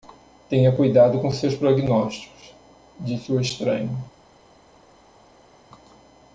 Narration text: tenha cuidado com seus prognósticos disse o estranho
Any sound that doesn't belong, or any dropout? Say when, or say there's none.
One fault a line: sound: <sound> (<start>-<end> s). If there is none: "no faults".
no faults